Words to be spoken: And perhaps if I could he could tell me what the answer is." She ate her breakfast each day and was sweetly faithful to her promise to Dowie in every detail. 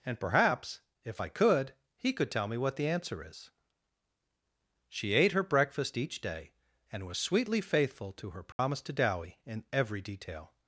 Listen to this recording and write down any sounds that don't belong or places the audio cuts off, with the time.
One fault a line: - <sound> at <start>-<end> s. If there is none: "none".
- dropout at 8.5-8.6 s